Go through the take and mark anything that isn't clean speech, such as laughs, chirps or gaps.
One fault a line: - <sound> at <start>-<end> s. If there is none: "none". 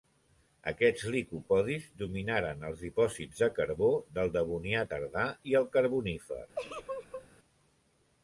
- laugh at 6.5-7.3 s